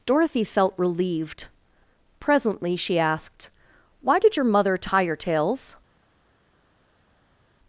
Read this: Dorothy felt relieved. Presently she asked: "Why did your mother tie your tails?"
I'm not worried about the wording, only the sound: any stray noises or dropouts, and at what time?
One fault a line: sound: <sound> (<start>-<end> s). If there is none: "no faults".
no faults